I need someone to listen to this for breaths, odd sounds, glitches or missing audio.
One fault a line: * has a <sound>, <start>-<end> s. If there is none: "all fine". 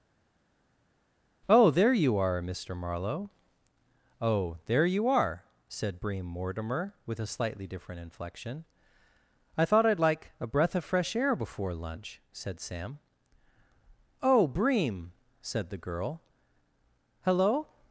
all fine